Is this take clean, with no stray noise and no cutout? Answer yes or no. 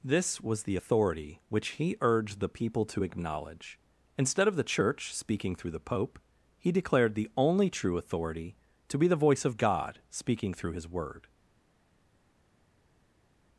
yes